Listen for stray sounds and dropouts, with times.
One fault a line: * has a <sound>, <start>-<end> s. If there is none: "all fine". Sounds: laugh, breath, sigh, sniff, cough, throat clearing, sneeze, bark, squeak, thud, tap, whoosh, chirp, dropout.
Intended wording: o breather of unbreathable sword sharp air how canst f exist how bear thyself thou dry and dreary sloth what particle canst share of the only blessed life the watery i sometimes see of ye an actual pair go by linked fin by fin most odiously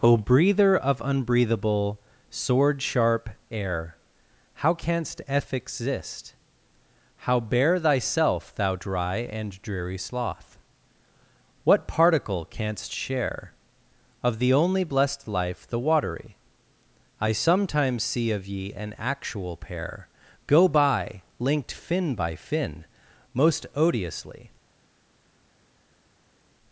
all fine